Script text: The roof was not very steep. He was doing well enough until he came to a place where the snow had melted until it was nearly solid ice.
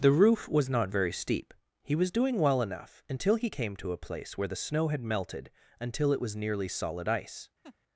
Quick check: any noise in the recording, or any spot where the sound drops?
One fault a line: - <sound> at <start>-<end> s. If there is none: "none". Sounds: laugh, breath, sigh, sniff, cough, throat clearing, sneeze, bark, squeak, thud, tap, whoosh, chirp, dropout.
- laugh at 7.6-7.8 s